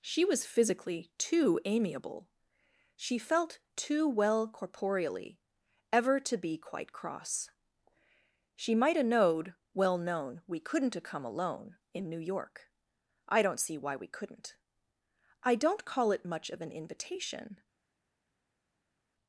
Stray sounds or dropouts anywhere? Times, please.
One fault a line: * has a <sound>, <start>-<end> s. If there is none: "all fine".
all fine